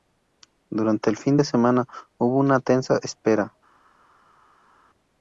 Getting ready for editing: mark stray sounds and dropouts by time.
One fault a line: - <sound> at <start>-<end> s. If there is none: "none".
none